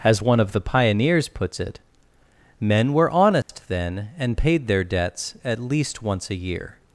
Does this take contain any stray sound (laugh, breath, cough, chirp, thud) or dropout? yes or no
yes